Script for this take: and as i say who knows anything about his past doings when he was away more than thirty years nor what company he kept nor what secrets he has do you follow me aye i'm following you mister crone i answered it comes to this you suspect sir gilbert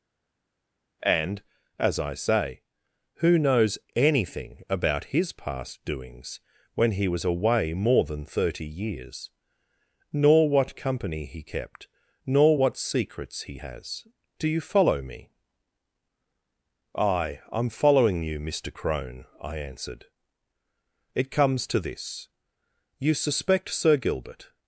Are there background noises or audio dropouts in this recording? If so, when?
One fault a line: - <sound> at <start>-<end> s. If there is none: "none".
none